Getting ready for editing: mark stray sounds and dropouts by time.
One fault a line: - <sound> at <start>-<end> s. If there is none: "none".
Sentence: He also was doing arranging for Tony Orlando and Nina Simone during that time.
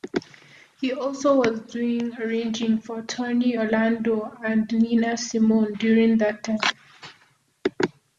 none